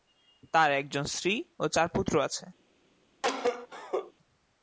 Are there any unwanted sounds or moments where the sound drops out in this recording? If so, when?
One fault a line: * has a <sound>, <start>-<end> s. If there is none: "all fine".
* has a cough, 3.2-4.1 s